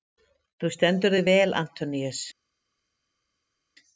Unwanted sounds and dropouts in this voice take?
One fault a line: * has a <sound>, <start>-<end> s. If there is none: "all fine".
all fine